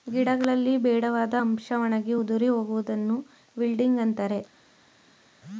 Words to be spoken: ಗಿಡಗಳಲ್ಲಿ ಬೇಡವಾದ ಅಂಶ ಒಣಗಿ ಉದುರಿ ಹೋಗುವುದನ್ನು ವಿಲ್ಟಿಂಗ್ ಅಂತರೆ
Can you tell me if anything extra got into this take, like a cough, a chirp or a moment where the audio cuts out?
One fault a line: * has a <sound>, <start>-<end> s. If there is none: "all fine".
all fine